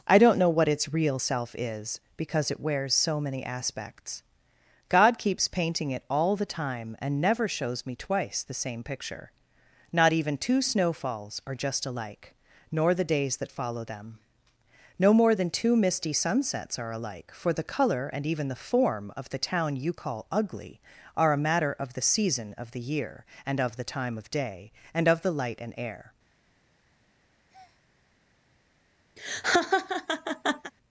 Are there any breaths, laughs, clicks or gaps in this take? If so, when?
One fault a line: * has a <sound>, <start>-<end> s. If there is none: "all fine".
* has a breath, 27.5-27.8 s
* has a laugh, 29.2-30.7 s